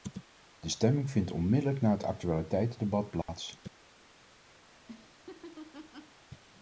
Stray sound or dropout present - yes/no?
yes